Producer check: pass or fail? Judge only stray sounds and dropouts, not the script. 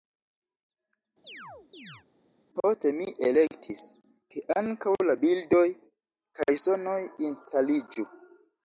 fail